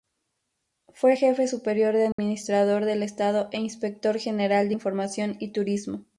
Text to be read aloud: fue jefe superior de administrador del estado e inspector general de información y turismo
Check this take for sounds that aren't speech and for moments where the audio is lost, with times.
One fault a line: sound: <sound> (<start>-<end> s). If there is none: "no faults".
sound: dropout (2.1-2.2 s)